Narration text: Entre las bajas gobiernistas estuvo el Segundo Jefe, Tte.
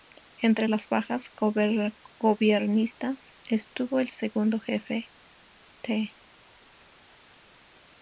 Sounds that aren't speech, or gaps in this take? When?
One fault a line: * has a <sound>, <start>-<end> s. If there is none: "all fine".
all fine